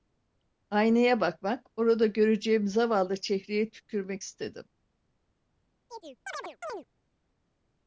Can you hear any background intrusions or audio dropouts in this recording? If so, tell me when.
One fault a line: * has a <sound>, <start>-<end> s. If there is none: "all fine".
* has a chirp, 5.9-6.9 s